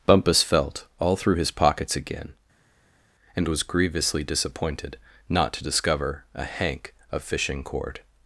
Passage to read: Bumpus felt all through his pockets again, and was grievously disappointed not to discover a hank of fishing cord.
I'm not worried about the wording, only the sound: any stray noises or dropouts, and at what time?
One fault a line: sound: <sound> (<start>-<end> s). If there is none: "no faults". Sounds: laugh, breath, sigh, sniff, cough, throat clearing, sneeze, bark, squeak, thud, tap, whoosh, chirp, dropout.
no faults